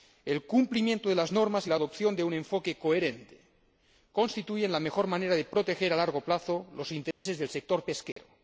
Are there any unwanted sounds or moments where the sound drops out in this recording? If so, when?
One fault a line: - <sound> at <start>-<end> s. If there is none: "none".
- dropout at 7.1-7.3 s
- dropout at 8.1-8.2 s